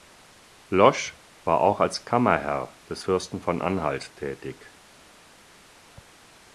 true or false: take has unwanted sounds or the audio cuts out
false